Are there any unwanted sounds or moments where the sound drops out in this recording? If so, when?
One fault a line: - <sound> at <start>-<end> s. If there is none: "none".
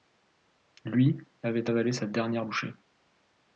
none